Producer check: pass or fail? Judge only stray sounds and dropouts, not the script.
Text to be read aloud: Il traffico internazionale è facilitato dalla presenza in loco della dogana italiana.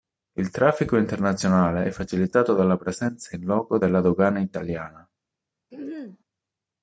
fail